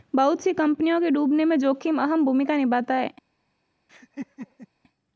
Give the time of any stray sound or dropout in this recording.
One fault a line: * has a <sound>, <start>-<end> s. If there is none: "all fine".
* has a laugh, 3.9-4.7 s